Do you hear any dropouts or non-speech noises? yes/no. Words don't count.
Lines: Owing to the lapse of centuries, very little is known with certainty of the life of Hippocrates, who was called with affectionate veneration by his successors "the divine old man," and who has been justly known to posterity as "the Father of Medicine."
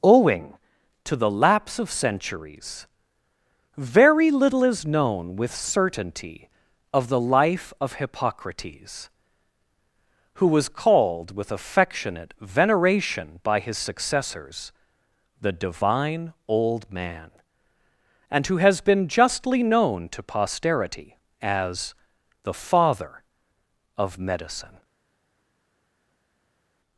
no